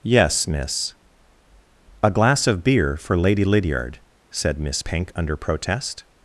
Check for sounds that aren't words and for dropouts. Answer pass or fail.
pass